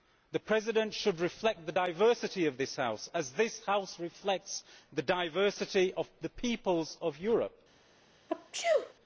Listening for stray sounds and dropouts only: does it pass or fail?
fail